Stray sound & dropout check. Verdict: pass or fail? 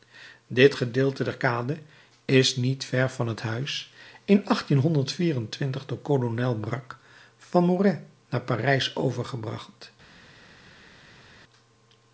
pass